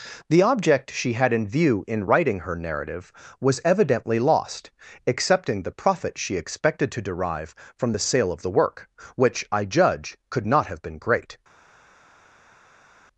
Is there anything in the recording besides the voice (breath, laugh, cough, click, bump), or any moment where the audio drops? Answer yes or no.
no